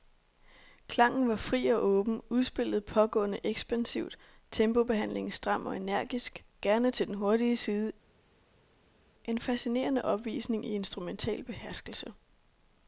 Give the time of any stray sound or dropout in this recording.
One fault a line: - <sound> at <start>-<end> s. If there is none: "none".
none